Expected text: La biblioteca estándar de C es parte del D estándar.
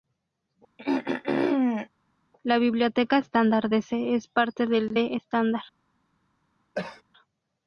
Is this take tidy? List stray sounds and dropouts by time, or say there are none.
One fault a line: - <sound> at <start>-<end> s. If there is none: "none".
- throat clearing at 0.8-1.9 s
- cough at 6.8-7.0 s